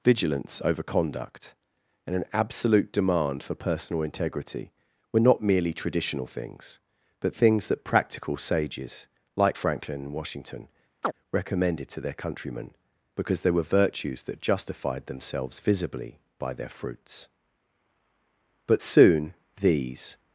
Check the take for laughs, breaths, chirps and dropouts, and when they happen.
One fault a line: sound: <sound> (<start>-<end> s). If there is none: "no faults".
sound: chirp (11.0-11.1 s)